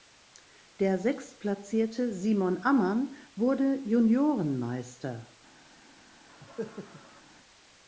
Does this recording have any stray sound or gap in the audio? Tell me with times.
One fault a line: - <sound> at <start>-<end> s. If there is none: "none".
- cough at 6.3-7.2 s